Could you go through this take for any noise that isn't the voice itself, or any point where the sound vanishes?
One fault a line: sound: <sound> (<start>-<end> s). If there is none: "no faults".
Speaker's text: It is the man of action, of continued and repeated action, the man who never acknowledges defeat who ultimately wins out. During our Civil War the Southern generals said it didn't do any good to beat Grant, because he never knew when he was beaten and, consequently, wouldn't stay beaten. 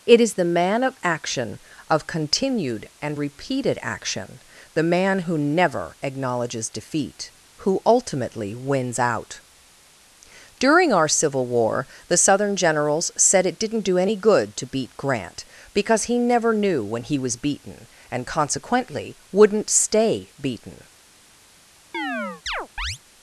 sound: chirp (21.9-23.0 s)